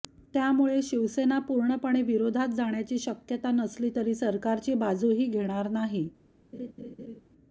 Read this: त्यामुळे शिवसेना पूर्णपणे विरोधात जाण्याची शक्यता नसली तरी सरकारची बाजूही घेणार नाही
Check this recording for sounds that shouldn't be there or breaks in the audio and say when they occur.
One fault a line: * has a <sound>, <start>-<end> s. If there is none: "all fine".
* has a laugh, 6.5-7.2 s